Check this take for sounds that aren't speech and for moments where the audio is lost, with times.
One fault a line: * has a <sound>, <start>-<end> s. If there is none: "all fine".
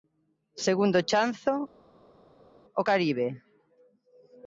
all fine